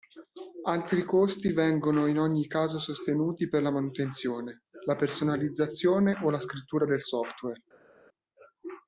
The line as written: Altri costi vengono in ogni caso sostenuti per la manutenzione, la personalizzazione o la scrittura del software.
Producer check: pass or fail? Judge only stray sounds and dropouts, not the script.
pass